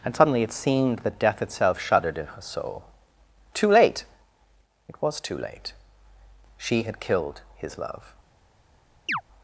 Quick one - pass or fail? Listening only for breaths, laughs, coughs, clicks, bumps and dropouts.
fail